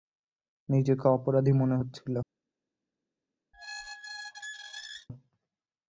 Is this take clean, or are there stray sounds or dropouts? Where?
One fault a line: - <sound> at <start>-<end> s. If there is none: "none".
- squeak at 3.5-5.1 s